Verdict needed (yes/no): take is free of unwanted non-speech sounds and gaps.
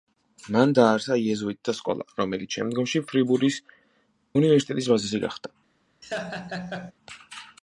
no